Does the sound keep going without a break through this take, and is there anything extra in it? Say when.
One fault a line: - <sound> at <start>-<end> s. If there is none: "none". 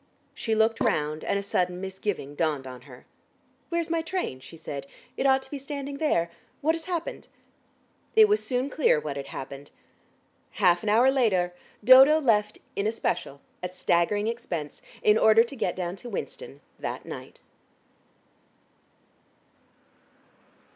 none